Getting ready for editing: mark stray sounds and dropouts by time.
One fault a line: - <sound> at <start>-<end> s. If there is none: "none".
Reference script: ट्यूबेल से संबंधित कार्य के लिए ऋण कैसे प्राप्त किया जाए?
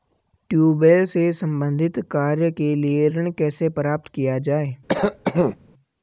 - cough at 4.9-5.6 s